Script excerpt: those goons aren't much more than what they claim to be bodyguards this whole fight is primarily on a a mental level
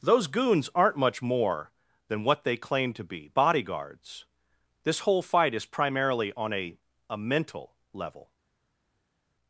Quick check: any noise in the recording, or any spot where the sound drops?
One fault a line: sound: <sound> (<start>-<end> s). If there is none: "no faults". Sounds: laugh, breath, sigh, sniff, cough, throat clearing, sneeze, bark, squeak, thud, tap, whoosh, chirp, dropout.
no faults